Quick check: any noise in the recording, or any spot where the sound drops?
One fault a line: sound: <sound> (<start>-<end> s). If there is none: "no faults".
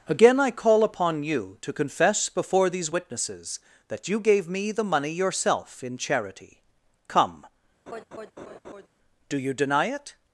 sound: laugh (7.9-8.9 s)